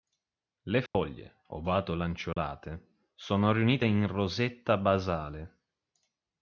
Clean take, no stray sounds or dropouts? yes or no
no